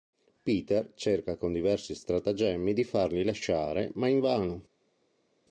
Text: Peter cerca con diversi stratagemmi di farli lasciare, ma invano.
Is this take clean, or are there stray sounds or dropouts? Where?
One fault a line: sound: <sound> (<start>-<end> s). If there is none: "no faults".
no faults